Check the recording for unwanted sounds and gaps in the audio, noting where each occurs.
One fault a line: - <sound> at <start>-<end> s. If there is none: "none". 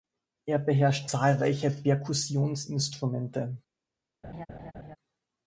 - laugh at 4.2-5.0 s